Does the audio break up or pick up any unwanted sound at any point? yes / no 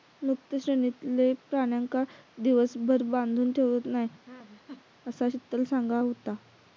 yes